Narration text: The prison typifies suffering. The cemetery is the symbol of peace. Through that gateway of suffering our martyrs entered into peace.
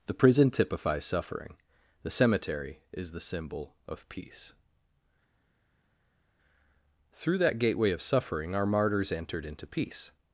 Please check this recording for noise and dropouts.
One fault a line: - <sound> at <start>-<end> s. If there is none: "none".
none